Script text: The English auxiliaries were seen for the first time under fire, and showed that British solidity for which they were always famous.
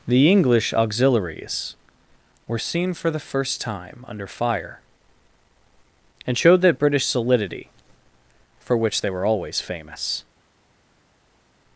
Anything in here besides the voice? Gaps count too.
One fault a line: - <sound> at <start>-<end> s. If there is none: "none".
none